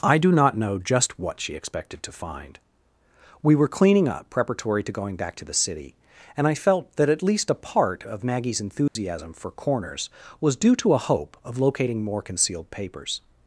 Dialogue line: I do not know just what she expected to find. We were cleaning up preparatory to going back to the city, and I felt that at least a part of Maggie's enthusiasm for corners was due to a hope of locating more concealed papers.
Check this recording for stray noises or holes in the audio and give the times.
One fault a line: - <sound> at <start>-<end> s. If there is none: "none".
- dropout at 8.9-9.0 s